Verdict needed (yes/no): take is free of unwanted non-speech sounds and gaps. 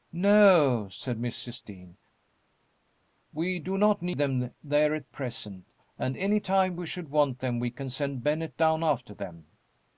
yes